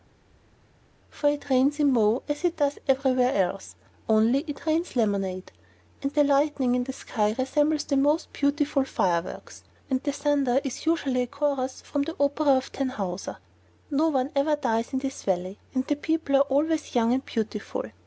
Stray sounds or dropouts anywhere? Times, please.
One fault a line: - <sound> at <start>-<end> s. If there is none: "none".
none